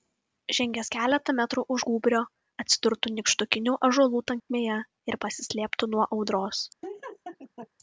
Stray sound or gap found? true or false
true